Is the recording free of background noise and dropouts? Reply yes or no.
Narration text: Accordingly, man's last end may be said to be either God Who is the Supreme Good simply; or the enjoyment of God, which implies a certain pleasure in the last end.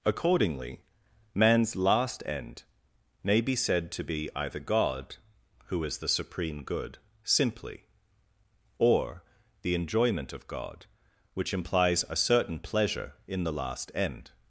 yes